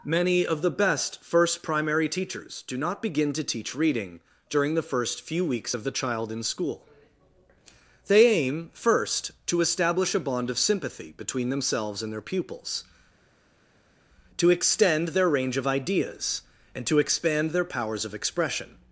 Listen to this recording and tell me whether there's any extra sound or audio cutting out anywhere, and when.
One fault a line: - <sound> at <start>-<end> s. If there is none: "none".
none